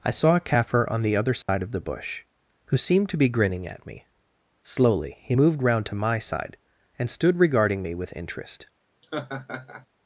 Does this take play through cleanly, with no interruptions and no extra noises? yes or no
no